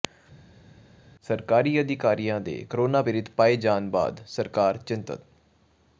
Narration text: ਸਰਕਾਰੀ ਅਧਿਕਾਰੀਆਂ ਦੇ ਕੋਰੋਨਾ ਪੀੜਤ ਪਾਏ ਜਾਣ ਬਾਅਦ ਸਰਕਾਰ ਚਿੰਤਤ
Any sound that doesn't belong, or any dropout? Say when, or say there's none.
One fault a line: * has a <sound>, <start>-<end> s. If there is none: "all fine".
all fine